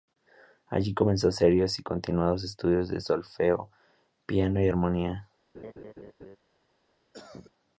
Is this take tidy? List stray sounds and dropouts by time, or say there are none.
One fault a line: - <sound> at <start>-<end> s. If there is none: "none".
- laugh at 5.5-6.4 s
- cough at 7.1-7.5 s